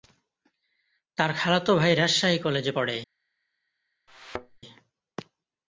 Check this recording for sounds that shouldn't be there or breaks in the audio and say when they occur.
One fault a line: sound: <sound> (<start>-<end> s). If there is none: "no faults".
sound: thud (4.1-4.6 s)